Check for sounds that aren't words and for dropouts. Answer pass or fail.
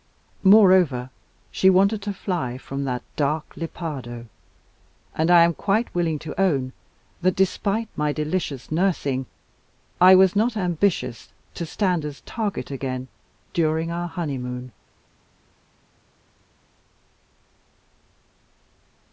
pass